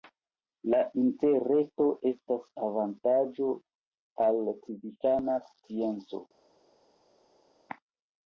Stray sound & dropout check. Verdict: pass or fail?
pass